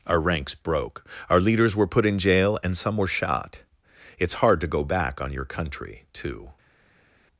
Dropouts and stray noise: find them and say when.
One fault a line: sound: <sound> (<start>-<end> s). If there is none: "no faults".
no faults